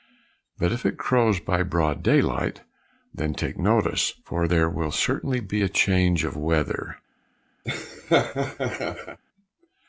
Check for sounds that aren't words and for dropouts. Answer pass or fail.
fail